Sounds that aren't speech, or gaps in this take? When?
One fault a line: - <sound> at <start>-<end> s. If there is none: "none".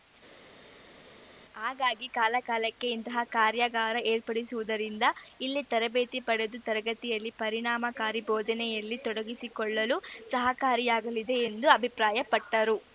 none